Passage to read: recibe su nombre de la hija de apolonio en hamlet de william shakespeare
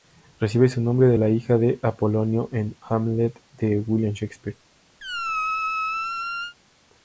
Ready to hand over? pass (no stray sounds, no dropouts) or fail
fail